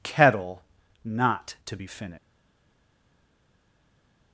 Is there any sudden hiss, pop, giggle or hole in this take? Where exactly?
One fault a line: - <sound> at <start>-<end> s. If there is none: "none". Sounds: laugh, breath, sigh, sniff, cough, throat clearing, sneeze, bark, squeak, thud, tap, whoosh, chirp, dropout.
none